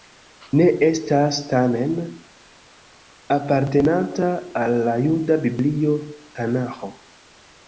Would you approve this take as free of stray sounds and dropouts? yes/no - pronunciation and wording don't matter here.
yes